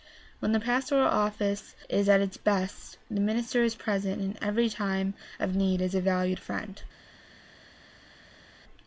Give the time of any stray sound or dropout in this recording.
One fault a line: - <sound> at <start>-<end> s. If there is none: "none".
none